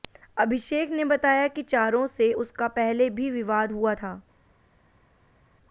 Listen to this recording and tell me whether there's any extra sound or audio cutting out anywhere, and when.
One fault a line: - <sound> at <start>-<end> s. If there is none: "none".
none